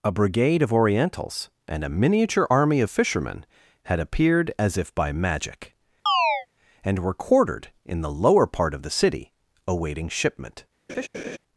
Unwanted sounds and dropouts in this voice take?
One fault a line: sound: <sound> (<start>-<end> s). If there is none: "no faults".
sound: chirp (6.1-6.5 s)
sound: laugh (10.9-11.4 s)